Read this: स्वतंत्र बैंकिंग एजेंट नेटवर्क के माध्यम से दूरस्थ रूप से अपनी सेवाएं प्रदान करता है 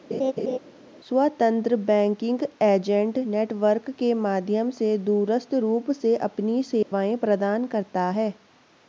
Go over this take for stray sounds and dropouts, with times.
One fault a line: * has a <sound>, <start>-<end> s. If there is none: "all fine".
* has a laugh, 0.1-0.6 s
* has a dropout, 6.8-6.9 s